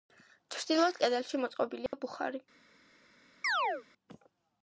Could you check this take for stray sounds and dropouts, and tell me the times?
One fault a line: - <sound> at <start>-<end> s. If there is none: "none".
- dropout at 1.9-1.9 s
- chirp at 3.4-3.8 s